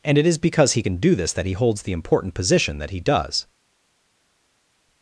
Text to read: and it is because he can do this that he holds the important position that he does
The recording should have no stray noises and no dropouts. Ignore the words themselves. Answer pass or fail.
pass